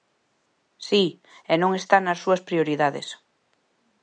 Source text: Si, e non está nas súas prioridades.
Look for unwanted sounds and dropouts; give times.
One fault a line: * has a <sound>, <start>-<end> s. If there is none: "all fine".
all fine